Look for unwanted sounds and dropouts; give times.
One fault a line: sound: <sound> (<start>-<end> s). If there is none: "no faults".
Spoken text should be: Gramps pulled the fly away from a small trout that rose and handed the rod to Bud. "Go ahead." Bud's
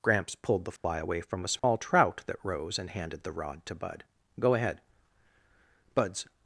sound: dropout (0.8-0.8 s)
sound: dropout (1.6-1.6 s)